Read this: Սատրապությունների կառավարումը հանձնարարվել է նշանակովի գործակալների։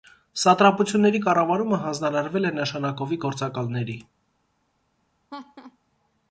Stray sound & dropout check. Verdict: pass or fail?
fail